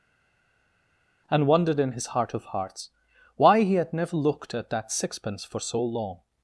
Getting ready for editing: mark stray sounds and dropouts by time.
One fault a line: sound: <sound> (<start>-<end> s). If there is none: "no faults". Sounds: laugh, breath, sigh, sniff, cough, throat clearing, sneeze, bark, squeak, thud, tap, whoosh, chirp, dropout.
no faults